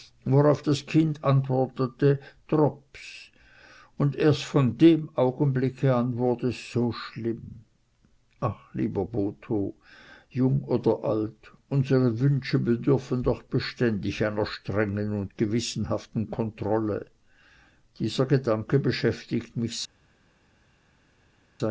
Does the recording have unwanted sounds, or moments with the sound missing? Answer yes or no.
no